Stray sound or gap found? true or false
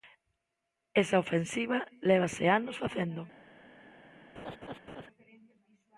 true